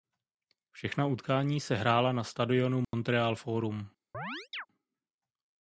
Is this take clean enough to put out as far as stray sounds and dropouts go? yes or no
no